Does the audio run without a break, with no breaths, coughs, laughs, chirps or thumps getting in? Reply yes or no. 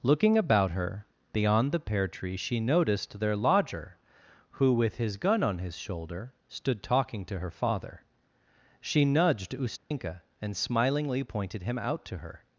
no